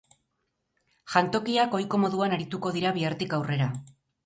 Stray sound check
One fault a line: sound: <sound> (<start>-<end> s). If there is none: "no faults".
no faults